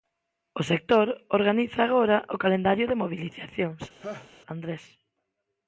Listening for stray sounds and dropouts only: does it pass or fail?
fail